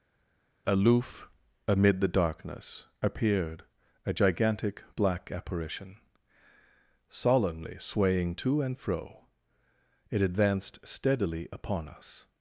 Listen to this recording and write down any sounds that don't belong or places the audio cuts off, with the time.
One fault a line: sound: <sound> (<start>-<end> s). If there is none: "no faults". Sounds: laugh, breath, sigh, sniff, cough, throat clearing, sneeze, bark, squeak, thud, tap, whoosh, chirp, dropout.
no faults